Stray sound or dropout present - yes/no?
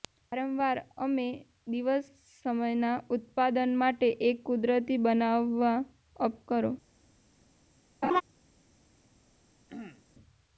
yes